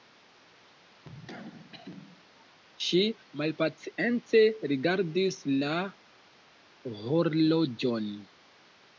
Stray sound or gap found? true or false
true